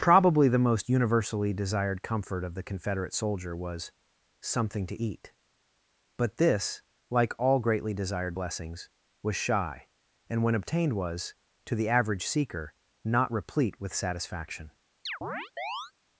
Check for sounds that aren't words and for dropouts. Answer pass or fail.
fail